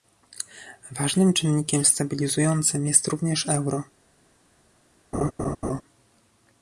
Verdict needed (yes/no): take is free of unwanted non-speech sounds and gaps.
no